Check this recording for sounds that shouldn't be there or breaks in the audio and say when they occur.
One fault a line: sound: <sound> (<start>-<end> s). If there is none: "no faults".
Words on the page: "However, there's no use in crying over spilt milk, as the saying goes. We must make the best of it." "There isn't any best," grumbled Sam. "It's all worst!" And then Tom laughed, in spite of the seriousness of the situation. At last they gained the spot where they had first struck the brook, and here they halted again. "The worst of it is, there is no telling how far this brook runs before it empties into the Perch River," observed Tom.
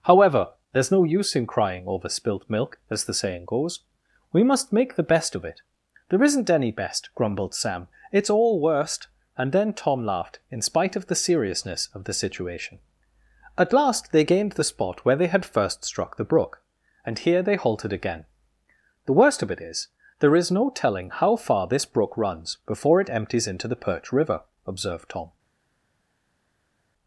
no faults